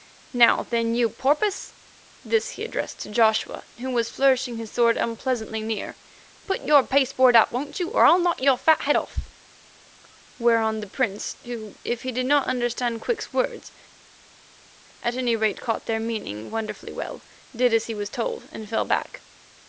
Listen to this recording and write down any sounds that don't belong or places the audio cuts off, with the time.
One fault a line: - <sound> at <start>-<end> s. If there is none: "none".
none